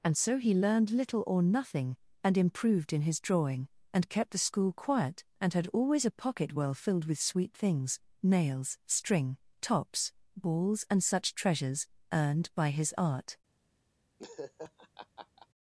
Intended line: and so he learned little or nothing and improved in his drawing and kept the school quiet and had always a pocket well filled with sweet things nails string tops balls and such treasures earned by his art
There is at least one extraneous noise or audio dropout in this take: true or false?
true